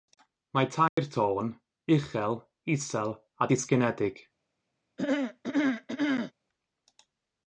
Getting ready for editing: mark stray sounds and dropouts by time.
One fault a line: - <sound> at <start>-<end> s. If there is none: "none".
- dropout at 0.9-1.0 s
- throat clearing at 5.0-6.3 s